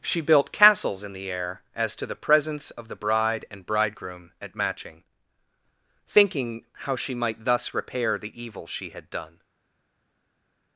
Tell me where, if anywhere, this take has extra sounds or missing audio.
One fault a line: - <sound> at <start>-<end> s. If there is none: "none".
none